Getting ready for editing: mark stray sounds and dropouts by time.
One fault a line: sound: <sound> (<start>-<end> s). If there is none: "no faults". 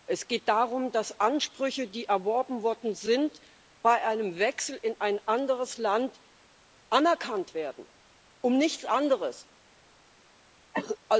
sound: cough (10.7-11.0 s)